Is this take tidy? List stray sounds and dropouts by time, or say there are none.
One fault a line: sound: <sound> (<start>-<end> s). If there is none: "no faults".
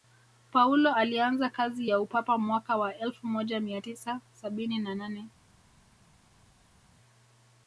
no faults